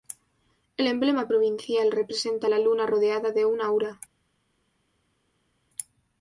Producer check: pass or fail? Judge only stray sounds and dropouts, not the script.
pass